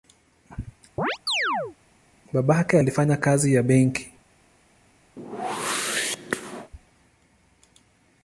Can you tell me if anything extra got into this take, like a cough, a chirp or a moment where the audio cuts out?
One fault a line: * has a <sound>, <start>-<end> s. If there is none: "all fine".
* has a chirp, 1.0-1.8 s
* has a whoosh, 5.2-6.7 s